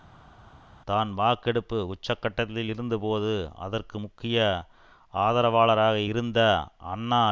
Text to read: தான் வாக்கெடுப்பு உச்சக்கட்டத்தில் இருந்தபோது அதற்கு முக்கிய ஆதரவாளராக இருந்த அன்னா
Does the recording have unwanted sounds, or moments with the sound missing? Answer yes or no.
no